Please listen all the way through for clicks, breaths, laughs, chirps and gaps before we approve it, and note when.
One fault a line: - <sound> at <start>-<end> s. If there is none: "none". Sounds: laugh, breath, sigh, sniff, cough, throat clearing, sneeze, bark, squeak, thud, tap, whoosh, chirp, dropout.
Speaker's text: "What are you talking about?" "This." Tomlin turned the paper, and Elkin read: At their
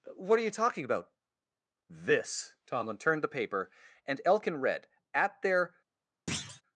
- thud at 6.3-6.6 s